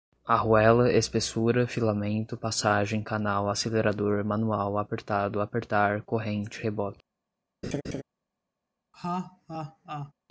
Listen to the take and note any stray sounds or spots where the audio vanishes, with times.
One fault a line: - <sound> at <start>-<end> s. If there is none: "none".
- laugh at 7.6-8.0 s
- laugh at 8.9-10.1 s